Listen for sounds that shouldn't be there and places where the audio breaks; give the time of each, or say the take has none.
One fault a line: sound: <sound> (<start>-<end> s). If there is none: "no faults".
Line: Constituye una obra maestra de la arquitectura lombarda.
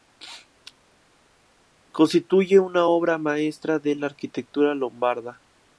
no faults